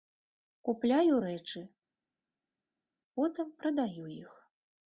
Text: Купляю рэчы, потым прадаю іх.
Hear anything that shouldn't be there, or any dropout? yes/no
no